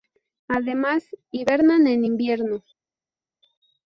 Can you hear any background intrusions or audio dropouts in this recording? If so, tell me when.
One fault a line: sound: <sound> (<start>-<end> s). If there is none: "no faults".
no faults